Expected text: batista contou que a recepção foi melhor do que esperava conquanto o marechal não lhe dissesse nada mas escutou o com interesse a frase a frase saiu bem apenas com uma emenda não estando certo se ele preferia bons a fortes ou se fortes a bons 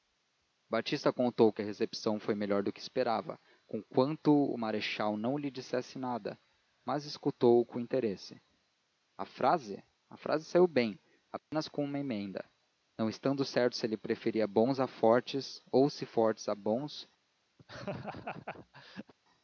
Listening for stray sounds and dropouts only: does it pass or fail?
fail